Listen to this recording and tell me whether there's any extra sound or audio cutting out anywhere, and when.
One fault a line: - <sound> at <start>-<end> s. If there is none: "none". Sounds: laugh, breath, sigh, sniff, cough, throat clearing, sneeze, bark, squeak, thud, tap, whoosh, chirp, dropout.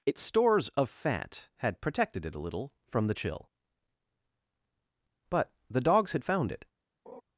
- laugh at 7.1-7.2 s